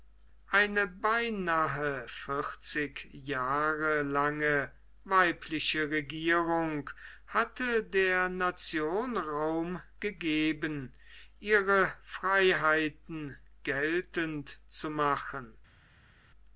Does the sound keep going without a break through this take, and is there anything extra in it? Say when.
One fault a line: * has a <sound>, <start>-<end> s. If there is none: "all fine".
all fine